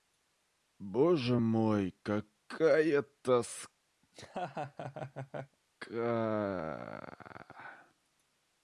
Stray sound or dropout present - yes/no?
yes